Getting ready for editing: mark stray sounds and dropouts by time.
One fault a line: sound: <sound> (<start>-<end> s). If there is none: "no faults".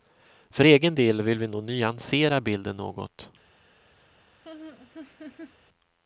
sound: laugh (4.4-5.6 s)